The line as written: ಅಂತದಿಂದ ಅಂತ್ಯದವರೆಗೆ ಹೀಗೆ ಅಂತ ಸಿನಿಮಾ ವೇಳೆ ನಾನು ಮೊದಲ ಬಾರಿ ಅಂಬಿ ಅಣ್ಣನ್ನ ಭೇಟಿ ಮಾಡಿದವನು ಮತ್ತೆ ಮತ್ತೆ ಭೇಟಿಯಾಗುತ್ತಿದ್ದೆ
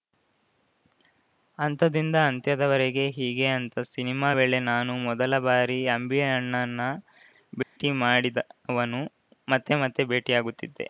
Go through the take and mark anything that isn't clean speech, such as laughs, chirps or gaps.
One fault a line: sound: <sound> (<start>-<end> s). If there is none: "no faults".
sound: dropout (7.6-7.8 s)